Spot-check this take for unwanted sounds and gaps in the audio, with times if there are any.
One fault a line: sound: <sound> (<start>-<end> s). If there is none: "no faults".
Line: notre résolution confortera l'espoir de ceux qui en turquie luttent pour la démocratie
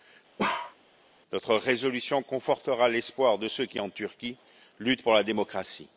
sound: bark (0.4-0.8 s)